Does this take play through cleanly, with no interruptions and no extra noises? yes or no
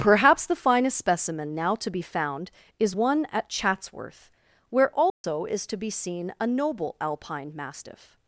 no